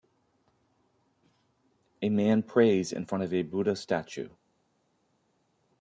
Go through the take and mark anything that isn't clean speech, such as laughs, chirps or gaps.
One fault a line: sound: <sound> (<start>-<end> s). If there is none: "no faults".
no faults